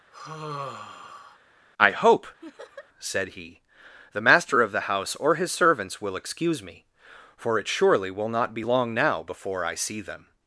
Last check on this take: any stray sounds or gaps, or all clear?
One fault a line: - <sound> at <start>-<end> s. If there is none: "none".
- sigh at 0.1-1.4 s
- laugh at 2.4-2.9 s